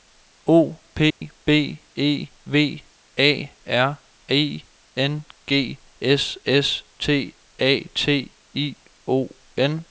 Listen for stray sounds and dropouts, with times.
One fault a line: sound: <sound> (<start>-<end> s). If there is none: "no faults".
sound: dropout (1.1-1.2 s)